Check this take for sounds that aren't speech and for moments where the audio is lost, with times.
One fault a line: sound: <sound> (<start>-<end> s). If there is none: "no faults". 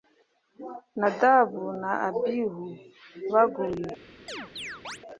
sound: chirp (4.3-5.0 s)